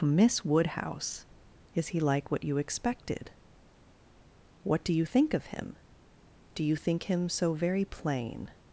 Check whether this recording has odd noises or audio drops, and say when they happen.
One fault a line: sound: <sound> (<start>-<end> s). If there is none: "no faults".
no faults